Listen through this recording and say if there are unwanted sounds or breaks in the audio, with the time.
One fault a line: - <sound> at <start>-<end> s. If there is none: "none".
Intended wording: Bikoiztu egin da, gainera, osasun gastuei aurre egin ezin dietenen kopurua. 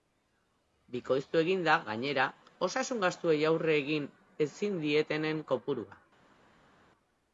none